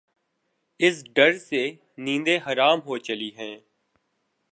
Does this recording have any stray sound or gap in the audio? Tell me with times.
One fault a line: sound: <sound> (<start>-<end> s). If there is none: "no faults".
no faults